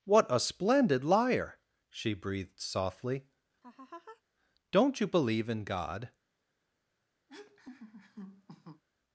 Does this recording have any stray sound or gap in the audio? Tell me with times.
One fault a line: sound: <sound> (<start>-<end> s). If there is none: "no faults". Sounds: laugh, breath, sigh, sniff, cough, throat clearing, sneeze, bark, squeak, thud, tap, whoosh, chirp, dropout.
sound: laugh (3.6-4.2 s)
sound: laugh (7.3-8.8 s)